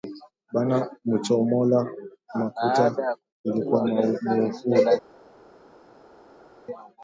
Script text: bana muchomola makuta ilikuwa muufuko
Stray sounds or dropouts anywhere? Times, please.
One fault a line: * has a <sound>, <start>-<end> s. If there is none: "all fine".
all fine